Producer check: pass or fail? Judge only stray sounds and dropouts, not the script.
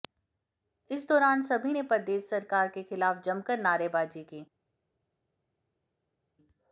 pass